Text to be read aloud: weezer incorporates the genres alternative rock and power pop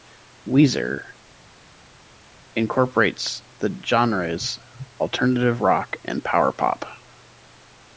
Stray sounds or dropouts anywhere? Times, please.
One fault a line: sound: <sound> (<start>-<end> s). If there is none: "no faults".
no faults